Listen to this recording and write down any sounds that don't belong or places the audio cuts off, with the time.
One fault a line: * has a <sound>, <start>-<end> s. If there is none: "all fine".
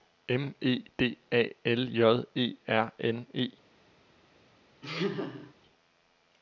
* has a laugh, 4.8-5.5 s